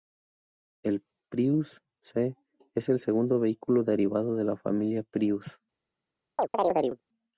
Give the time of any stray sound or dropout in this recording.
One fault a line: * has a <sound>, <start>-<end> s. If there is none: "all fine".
* has a chirp, 6.4-7.0 s